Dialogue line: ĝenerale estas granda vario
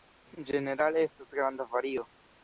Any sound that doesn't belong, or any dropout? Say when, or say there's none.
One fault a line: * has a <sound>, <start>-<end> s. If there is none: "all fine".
all fine